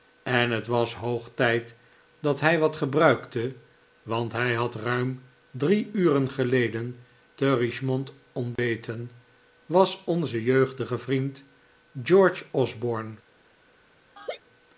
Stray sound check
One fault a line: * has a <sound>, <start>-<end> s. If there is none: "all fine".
* has a dropout, 8.6-8.6 s
* has a laugh, 14.2-14.4 s